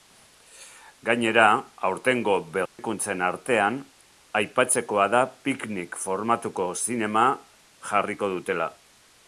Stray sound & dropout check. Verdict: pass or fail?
fail